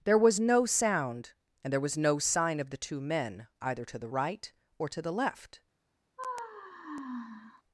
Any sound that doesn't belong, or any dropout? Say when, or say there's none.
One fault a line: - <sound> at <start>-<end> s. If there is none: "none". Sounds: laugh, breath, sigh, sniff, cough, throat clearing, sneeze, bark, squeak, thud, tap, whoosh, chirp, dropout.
- sigh at 6.2-7.6 s